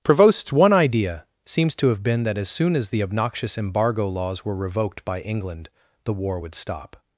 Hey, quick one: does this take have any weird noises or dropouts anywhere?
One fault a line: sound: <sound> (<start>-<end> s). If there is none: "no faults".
no faults